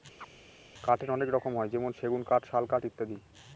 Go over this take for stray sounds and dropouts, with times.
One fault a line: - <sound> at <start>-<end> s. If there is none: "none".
- chirp at 0.2-0.3 s